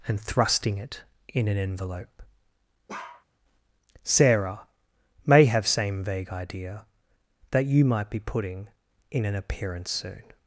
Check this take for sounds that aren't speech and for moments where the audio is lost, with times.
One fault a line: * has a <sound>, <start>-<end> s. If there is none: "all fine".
* has a bark, 2.9-3.3 s